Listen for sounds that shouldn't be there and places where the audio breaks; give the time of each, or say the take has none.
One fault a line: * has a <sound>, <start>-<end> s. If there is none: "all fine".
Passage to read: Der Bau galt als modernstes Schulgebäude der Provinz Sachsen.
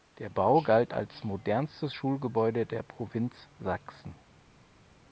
all fine